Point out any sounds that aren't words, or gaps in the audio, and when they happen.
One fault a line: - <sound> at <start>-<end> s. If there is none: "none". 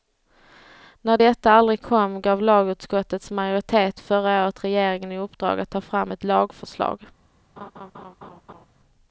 - laugh at 7.6-8.7 s